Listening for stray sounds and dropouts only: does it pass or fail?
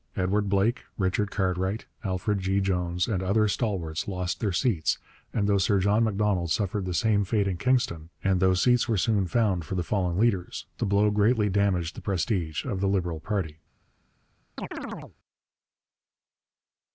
fail